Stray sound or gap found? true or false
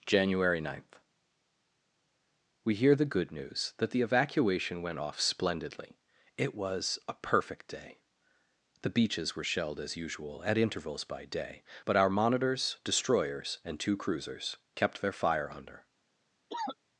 true